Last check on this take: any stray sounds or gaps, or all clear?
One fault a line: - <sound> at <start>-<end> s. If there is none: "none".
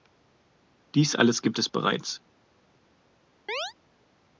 - chirp at 3.5-3.7 s